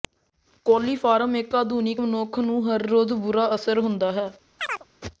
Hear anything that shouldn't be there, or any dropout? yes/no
yes